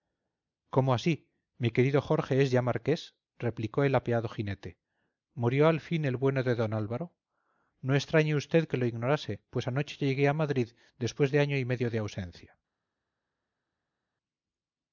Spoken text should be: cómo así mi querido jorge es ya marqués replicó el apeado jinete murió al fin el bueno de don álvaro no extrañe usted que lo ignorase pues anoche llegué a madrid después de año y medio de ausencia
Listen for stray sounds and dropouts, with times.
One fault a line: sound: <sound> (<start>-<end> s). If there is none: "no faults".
no faults